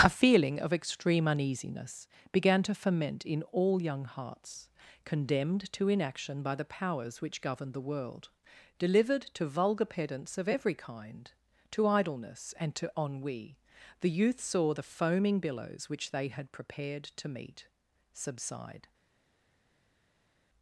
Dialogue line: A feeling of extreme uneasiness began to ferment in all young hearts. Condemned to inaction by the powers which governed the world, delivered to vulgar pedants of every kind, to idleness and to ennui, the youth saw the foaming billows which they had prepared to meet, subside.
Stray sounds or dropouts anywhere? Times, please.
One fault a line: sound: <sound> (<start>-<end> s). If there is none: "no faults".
no faults